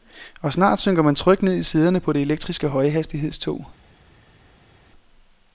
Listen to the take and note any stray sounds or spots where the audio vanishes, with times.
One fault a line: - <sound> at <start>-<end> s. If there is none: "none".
none